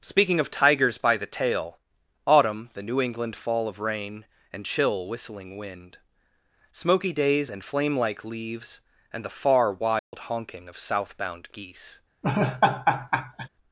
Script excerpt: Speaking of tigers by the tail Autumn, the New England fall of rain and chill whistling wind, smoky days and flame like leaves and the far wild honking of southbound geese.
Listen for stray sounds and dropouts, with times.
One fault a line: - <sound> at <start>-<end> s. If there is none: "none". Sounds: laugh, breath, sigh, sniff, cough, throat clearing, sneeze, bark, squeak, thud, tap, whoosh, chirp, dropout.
- dropout at 10.0-10.1 s
- laugh at 12.2-13.5 s